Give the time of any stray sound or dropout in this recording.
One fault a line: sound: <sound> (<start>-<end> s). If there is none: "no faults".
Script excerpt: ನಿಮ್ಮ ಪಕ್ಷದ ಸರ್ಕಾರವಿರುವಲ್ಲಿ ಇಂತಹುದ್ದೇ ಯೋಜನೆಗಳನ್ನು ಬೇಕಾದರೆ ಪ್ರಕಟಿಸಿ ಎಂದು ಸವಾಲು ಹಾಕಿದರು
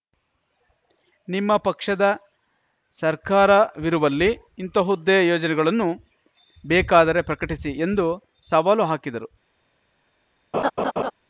sound: laugh (10.5-11.1 s)